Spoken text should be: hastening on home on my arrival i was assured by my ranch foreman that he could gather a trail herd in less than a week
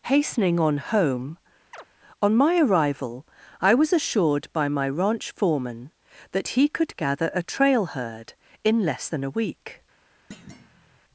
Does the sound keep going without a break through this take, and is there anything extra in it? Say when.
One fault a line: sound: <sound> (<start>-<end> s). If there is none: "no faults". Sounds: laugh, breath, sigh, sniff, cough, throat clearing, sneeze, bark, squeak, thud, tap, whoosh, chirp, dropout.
sound: chirp (1.7-1.9 s)
sound: thud (10.3-11.0 s)